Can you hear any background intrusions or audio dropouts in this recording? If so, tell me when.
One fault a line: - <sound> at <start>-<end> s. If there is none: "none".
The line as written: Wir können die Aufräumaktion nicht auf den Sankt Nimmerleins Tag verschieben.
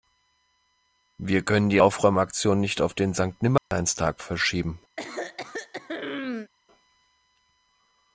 - dropout at 3.6-3.7 s
- throat clearing at 5.0-6.5 s